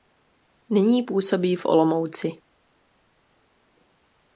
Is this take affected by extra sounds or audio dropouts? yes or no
no